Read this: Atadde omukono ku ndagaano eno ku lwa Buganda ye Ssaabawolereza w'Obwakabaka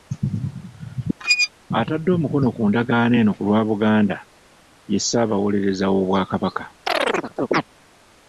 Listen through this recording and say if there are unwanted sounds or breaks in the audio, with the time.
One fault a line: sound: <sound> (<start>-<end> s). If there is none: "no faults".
sound: squeak (1.2-1.5 s)
sound: chirp (6.9-7.6 s)